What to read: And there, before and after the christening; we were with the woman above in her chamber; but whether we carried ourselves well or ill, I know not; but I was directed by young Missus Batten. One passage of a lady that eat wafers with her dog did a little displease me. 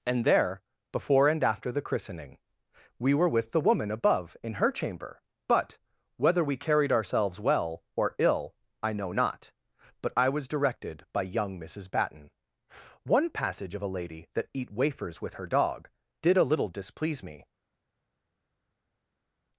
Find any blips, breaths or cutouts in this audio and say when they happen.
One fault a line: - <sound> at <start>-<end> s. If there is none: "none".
none